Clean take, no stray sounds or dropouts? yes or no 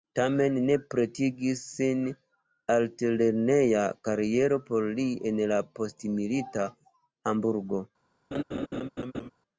no